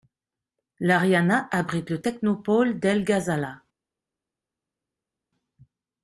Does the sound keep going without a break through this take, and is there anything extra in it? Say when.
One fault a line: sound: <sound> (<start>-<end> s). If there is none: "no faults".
no faults